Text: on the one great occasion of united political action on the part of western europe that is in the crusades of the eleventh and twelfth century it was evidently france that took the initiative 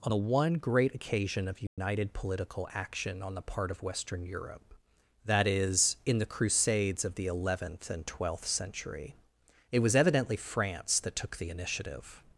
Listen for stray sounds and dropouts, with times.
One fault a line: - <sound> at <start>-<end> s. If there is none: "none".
- dropout at 1.7-1.8 s